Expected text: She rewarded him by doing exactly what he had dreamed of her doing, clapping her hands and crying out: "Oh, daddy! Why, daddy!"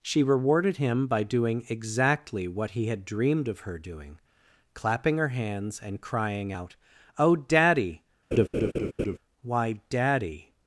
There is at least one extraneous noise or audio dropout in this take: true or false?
true